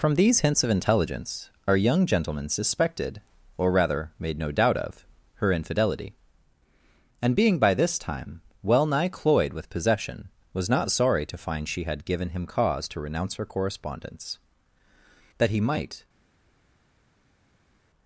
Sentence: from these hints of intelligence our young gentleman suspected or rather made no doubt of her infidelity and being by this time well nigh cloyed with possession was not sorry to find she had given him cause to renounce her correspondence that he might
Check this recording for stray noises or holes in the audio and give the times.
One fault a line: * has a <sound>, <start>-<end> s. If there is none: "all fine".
all fine